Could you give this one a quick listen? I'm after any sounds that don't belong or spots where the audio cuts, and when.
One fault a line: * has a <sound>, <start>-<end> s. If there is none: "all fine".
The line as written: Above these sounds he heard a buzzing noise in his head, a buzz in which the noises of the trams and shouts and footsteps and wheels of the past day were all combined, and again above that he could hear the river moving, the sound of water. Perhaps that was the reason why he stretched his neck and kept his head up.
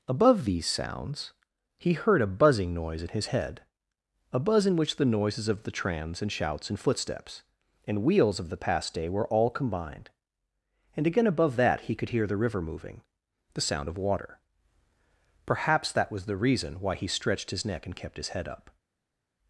all fine